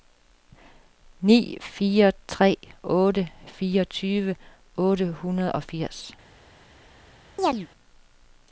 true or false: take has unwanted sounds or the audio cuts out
true